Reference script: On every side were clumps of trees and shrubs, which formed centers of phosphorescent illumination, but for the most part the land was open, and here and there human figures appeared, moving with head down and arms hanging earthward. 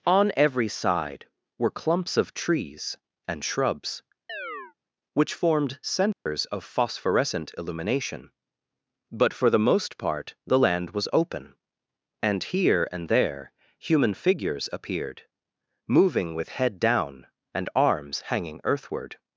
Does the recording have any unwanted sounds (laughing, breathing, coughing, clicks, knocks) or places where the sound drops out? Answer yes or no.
yes